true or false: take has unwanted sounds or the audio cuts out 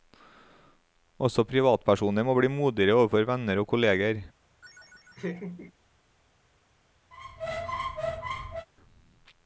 true